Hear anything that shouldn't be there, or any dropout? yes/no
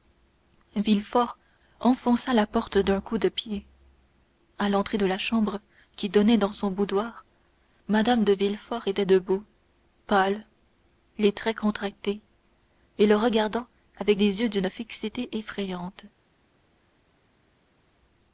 no